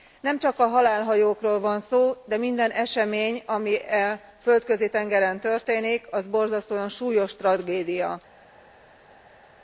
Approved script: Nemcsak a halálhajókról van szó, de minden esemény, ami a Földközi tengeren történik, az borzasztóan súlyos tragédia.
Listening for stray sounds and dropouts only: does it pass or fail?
pass